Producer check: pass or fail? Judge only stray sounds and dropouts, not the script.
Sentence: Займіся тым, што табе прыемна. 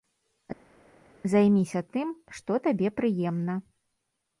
pass